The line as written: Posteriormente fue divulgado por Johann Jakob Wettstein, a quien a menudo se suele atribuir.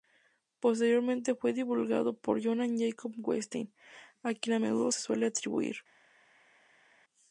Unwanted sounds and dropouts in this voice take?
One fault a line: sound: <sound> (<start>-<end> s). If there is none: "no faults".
no faults